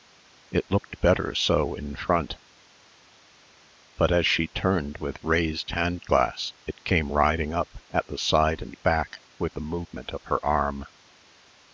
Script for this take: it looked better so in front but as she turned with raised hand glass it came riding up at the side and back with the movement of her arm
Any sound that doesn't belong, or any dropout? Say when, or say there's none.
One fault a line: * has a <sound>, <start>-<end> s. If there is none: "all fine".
all fine